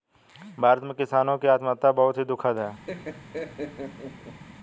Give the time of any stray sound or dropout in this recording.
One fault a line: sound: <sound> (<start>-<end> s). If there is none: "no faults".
sound: laugh (2.9-4.4 s)